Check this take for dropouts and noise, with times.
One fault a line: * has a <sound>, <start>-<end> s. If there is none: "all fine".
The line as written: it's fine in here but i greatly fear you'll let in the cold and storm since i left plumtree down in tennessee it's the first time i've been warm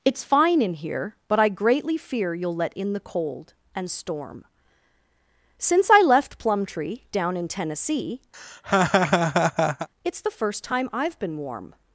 * has a laugh, 8.3-9.9 s